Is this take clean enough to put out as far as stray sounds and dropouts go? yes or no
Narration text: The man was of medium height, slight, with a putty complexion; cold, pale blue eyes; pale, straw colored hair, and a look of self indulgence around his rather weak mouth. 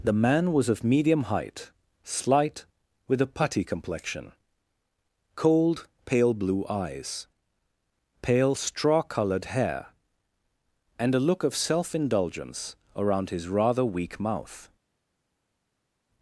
yes